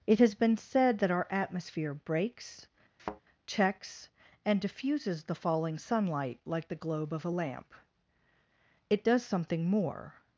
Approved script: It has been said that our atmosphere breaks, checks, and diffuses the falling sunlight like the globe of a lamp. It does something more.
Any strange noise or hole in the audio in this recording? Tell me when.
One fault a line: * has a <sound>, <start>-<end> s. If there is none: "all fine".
* has a thud, 3.0-3.2 s